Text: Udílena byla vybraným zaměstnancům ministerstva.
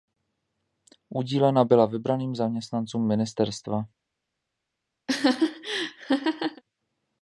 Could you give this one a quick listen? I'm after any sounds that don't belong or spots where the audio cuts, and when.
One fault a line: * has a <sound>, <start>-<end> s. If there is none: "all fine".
* has a laugh, 5.1-6.6 s